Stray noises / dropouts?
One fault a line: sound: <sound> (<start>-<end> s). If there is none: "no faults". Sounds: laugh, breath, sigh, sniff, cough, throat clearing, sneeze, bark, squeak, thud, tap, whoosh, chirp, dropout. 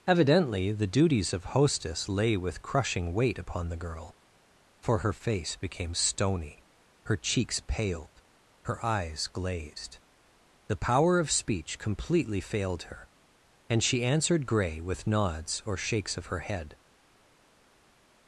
no faults